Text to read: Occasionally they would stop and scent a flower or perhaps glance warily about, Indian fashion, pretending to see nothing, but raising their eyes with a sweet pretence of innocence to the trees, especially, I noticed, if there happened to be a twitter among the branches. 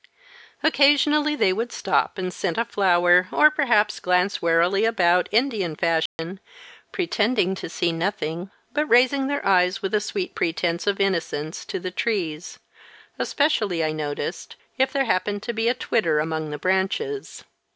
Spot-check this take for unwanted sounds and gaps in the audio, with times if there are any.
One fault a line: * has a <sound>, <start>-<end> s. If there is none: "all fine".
* has a dropout, 6.1-6.2 s